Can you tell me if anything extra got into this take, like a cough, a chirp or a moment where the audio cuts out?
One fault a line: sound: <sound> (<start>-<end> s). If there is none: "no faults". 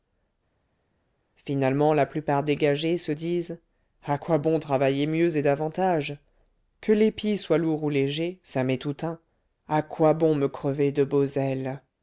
no faults